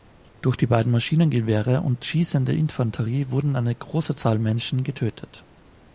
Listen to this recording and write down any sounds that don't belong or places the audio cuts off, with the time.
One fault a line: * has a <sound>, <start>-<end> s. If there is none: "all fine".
all fine